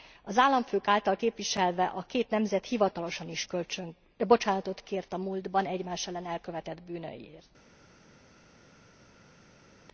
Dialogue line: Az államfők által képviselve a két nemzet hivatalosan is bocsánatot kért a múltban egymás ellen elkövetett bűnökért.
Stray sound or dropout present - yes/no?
no